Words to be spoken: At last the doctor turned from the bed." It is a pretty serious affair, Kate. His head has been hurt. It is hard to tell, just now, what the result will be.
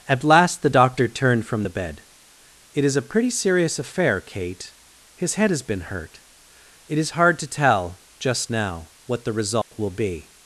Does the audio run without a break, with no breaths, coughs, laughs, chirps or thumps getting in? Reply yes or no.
no